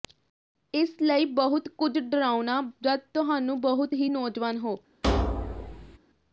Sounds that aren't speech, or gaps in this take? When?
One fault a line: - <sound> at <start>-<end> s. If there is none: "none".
- thud at 5.0-6.0 s